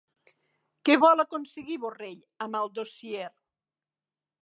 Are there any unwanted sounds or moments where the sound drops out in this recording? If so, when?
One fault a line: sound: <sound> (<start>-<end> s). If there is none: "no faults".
no faults